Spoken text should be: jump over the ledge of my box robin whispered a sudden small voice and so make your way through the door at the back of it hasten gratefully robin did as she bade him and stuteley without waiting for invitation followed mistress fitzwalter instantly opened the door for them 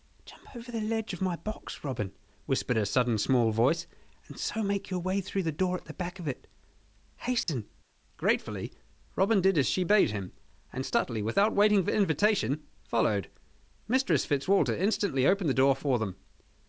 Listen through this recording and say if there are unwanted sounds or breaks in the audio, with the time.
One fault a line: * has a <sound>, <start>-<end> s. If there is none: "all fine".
* has a dropout, 7.4-7.5 s